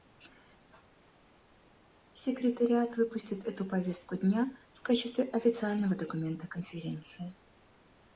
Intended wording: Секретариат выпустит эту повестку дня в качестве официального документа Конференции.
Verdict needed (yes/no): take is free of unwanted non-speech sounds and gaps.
yes